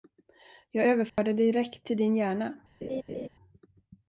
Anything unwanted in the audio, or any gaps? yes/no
yes